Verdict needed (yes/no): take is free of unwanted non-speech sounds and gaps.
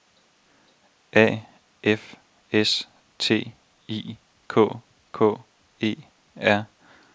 yes